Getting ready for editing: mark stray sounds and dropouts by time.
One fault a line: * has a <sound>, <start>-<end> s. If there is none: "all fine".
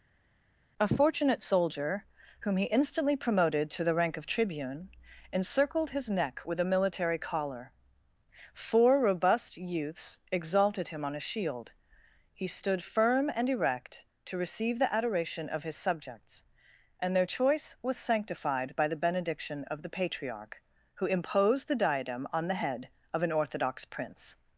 all fine